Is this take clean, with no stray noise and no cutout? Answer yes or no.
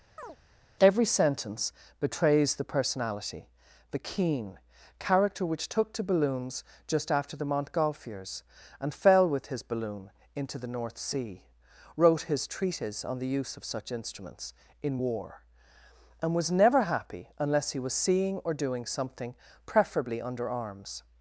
no